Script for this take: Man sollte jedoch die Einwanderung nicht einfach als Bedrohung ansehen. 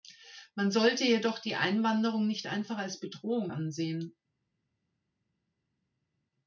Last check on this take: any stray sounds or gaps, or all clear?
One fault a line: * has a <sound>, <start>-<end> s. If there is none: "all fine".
all fine